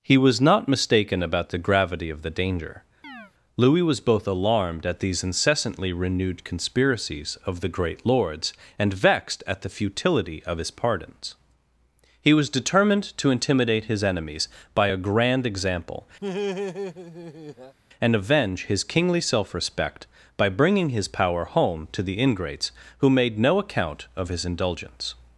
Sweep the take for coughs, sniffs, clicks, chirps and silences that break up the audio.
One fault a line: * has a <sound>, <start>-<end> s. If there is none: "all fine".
* has a chirp, 3.0-3.3 s
* has a laugh, 16.2-17.8 s